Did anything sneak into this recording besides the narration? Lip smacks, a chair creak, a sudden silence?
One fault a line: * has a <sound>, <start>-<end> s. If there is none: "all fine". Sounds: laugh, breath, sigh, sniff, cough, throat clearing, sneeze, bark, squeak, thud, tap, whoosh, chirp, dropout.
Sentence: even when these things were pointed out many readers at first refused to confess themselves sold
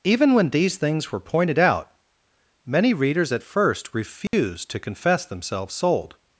* has a dropout, 4.3-4.3 s